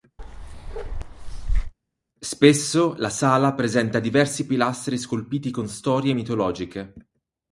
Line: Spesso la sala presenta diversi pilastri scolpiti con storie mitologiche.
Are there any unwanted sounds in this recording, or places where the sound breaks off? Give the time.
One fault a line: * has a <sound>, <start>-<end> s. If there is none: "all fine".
* has a bark, 0.2-1.7 s